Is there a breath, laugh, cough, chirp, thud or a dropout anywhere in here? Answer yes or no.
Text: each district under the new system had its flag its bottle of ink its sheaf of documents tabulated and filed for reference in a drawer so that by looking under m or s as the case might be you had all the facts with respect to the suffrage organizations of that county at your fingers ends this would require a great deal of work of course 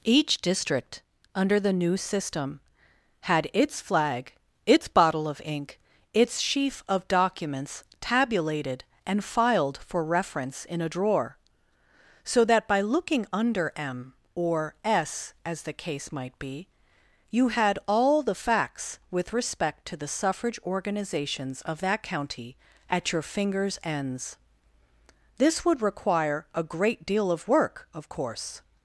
no